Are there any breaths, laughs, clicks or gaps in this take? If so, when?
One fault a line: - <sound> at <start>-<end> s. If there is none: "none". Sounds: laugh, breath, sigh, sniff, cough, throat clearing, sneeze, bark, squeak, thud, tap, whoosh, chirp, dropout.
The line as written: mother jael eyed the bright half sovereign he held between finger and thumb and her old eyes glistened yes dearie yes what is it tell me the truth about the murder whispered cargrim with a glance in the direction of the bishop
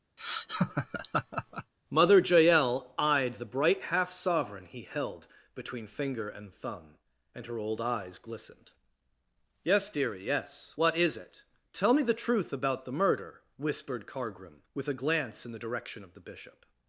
- laugh at 0.2-1.7 s